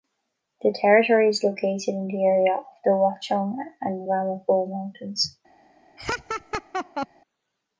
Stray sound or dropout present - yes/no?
yes